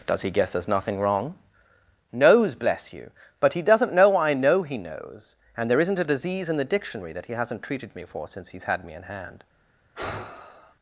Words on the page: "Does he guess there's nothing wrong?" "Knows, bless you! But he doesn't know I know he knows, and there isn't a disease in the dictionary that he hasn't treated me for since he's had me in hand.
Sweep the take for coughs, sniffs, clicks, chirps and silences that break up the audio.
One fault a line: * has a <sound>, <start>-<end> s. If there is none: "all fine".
* has a sigh, 10.0-10.8 s